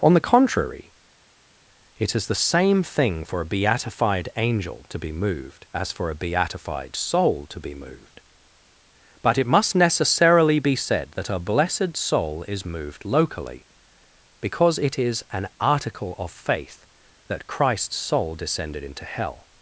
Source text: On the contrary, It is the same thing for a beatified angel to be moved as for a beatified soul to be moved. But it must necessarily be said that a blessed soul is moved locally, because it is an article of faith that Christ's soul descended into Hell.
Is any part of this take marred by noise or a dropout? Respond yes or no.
no